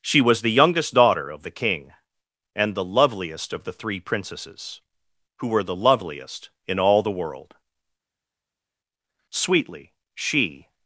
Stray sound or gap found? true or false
false